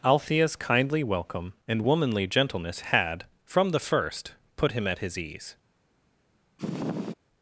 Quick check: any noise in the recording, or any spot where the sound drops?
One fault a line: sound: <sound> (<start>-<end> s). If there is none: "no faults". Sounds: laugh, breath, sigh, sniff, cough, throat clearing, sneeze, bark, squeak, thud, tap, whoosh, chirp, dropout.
sound: sniff (6.6-7.1 s)